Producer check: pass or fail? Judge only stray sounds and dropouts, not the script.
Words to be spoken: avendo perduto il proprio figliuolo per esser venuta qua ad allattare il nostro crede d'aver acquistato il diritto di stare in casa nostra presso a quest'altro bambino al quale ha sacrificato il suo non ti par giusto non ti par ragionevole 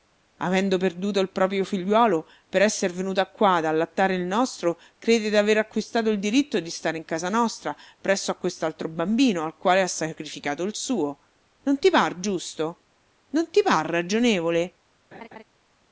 fail